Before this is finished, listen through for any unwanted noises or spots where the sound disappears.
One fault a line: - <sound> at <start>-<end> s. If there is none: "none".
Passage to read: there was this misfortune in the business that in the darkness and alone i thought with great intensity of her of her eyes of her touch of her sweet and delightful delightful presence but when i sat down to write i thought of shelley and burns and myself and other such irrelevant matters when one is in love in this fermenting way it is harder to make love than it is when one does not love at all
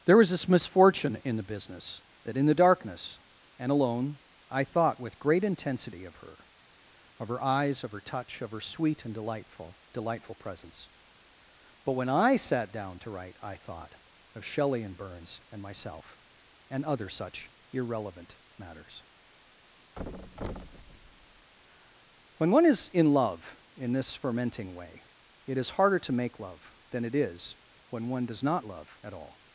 - thud at 20.0-21.5 s